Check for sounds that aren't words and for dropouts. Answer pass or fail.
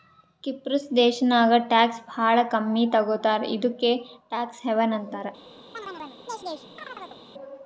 fail